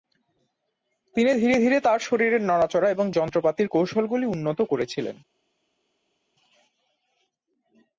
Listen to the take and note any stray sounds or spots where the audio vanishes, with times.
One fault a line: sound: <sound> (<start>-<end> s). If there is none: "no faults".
no faults